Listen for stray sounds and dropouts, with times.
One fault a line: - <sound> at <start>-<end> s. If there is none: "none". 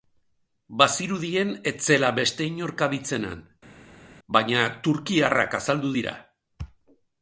none